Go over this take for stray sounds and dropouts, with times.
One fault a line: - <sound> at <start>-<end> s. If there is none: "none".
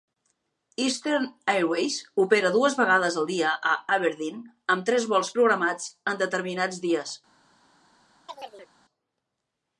- chirp at 8.3-8.7 s